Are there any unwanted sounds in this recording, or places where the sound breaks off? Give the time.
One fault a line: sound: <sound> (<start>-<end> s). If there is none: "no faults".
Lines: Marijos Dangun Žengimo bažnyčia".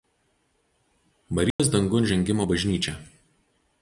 sound: dropout (1.5-1.6 s)